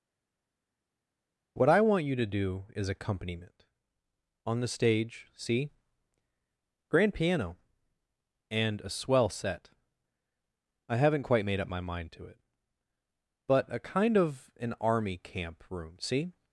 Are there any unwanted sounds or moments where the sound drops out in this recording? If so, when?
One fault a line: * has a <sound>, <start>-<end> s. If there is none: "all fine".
all fine